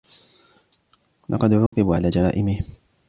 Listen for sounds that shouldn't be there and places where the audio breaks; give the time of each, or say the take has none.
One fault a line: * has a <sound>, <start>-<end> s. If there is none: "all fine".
* has a dropout, 1.7-1.7 s